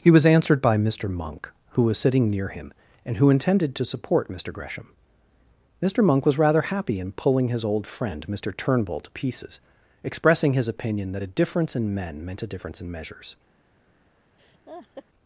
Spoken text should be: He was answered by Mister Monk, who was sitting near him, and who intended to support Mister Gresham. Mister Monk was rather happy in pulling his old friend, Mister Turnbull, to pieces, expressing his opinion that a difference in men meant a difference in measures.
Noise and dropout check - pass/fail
fail